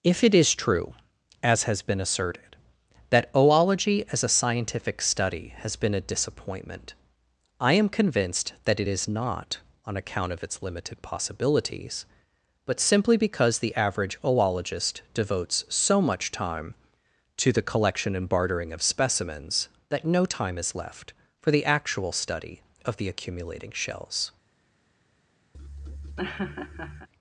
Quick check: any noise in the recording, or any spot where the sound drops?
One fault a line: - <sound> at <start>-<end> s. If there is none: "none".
- laugh at 25.5-27.1 s